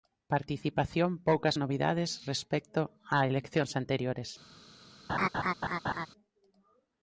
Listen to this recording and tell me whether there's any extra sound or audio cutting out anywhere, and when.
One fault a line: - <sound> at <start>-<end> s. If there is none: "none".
- laugh at 5.1-6.1 s